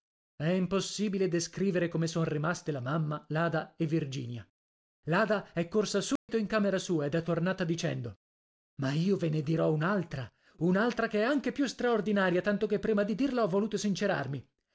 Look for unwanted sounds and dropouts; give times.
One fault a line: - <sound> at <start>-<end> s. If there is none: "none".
- dropout at 6.2-6.3 s